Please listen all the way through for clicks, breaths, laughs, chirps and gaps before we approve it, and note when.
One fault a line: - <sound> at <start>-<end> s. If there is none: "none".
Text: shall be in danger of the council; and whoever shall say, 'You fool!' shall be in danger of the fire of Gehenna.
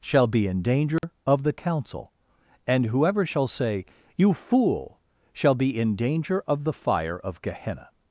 - dropout at 1.0-1.0 s